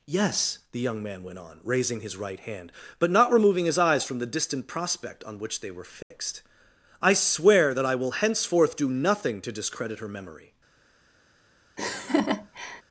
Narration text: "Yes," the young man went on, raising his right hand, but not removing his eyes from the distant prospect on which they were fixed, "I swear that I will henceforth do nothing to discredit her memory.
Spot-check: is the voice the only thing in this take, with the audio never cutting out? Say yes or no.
no